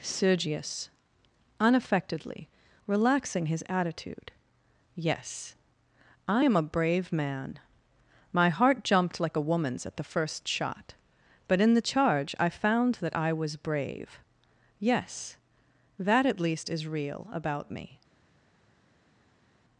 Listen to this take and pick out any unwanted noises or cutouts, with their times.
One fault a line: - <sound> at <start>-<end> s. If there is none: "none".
none